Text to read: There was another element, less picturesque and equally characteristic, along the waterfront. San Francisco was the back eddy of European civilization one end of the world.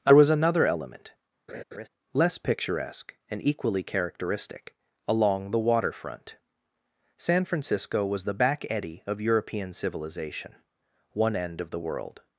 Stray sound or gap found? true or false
true